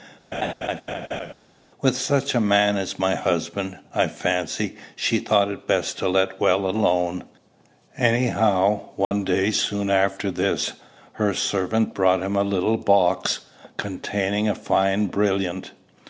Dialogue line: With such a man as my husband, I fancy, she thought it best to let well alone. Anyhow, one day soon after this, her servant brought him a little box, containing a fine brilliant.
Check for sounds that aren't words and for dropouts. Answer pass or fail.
fail